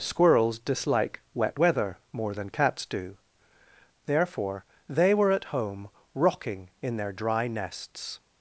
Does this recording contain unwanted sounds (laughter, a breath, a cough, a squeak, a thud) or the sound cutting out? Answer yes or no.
no